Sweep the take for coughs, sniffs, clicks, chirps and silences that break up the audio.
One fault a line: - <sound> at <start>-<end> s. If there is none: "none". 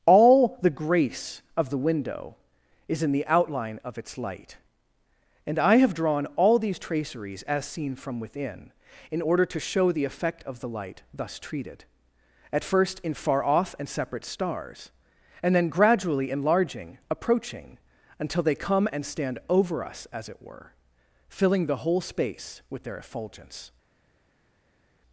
none